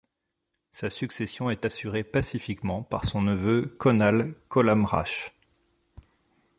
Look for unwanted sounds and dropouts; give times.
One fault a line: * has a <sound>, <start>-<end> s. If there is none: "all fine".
all fine